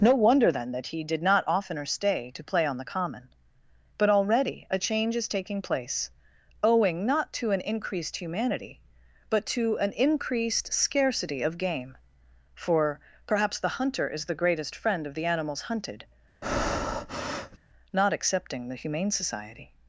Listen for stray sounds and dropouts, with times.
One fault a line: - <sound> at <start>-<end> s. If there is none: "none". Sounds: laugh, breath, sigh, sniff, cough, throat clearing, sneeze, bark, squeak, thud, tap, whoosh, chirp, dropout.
- breath at 16.4-17.6 s